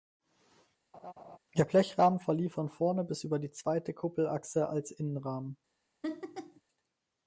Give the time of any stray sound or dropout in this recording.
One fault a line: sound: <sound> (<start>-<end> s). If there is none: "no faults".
sound: laugh (0.9-1.4 s)
sound: laugh (6.0-6.6 s)